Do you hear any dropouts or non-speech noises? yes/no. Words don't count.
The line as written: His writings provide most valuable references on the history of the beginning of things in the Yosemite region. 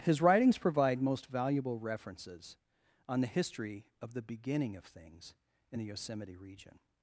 no